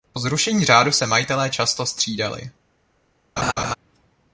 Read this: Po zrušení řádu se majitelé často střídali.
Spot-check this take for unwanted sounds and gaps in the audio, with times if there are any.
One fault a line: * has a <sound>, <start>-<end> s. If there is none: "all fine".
* has a laugh, 3.4-3.7 s